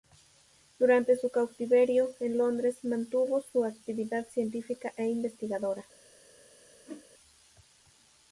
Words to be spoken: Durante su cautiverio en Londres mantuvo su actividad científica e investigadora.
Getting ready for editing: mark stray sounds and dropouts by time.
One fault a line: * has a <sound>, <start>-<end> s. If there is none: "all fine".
* has a whoosh, 6.9-7.1 s